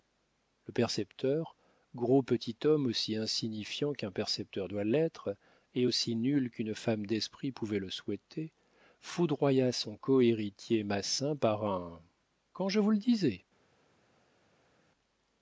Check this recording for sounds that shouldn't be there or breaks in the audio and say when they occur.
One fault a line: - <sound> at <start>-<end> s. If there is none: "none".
none